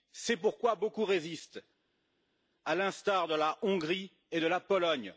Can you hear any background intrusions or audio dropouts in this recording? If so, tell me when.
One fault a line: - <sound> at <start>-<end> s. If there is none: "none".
none